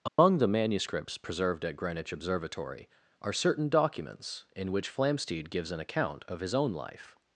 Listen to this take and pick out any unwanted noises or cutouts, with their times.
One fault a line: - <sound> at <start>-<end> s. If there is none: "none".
- dropout at 0.1-0.2 s